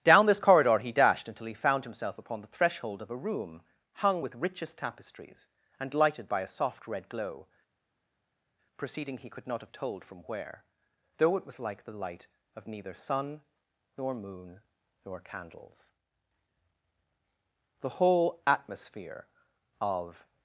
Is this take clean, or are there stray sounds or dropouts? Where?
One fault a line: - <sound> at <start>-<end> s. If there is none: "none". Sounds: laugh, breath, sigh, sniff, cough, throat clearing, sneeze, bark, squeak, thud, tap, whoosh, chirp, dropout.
none